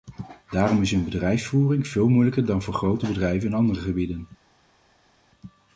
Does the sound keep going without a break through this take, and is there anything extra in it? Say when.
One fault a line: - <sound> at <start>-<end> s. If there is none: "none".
none